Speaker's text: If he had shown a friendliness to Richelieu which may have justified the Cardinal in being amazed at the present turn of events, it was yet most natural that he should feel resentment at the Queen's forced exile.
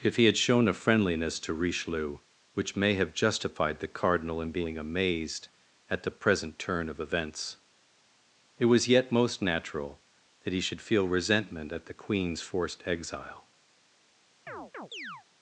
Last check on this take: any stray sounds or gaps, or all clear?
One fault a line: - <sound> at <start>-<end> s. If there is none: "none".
- chirp at 14.5-15.2 s